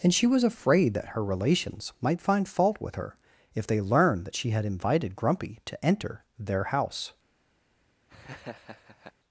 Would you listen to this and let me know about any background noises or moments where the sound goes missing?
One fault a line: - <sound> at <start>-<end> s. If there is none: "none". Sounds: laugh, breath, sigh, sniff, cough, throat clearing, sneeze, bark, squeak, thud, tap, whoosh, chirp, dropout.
- laugh at 8.1-9.1 s